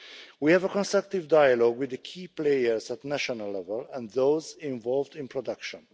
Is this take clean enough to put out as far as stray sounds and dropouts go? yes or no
yes